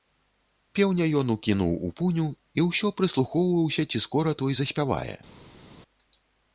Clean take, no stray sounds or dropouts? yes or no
yes